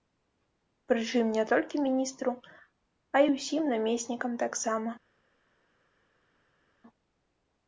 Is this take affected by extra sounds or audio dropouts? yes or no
no